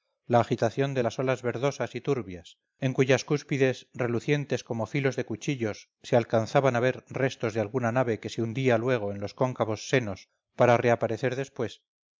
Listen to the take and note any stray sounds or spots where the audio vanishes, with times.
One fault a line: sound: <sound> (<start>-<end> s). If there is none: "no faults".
no faults